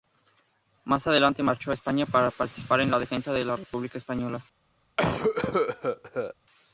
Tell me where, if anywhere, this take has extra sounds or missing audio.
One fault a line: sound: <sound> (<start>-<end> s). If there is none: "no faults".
sound: cough (5.0-6.3 s)